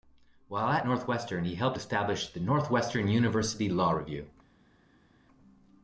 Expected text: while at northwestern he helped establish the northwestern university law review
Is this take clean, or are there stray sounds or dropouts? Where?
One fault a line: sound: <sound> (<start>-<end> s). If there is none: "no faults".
no faults